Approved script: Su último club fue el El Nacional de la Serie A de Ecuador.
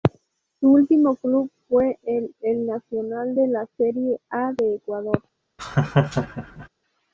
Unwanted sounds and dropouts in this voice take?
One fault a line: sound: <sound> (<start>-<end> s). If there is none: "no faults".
sound: laugh (5.6-6.7 s)